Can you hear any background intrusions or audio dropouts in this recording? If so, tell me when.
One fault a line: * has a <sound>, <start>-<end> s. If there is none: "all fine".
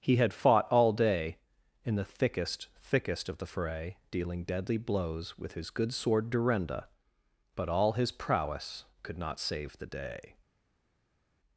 all fine